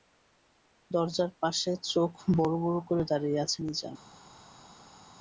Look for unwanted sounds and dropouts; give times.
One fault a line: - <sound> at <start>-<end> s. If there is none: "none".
none